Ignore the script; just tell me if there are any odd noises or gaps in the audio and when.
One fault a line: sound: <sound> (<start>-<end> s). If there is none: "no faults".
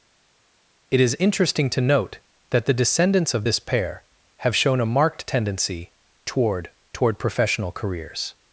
no faults